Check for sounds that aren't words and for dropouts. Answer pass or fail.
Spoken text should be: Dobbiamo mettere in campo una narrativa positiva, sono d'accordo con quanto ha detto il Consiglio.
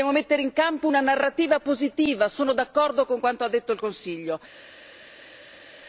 pass